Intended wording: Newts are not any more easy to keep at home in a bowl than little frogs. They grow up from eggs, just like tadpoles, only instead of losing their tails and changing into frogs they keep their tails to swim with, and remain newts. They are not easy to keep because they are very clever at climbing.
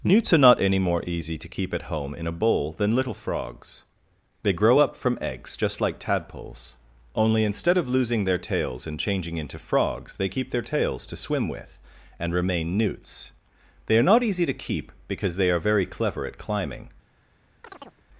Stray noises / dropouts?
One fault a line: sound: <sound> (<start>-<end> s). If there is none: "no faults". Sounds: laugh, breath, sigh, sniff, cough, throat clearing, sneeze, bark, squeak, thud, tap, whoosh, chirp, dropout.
sound: chirp (17.6-18.0 s)